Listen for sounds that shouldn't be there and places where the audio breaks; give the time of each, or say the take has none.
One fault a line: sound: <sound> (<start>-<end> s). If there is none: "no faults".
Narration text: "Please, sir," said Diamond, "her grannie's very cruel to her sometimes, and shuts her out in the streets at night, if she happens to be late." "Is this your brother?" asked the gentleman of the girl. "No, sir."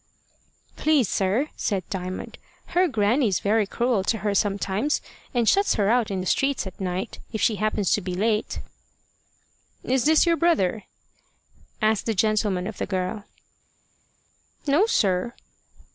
no faults